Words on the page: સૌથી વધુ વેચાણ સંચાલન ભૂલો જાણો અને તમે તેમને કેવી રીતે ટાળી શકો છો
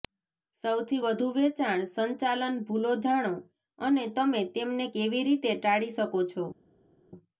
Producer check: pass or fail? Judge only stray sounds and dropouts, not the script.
pass